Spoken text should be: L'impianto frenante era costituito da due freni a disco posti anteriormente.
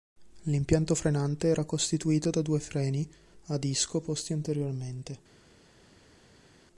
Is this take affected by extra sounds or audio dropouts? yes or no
no